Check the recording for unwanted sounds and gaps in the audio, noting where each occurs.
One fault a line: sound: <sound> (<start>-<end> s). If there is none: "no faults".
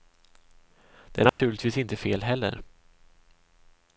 sound: dropout (1.3-1.4 s)